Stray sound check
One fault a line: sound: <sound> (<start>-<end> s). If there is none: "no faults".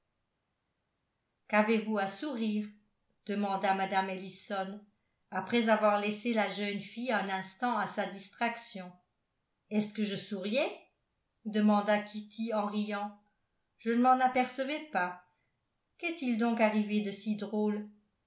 no faults